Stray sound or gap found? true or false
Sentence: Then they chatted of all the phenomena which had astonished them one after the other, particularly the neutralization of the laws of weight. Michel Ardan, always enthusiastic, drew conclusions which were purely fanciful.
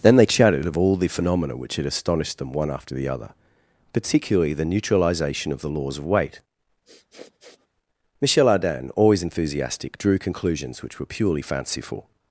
true